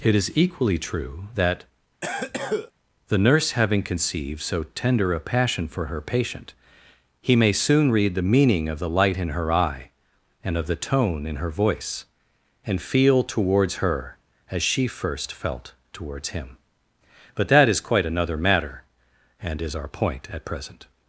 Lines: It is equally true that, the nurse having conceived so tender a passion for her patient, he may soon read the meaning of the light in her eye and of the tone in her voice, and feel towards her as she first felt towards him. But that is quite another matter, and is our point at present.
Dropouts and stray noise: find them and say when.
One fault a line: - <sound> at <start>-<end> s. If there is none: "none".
- cough at 2.0-2.7 s